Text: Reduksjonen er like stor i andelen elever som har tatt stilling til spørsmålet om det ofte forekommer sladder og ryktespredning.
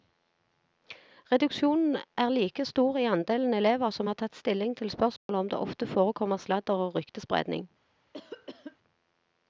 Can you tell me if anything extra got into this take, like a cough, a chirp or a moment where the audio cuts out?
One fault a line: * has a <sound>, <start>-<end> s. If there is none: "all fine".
* has a dropout, 5.2-5.3 s
* has a cough, 8.1-8.8 s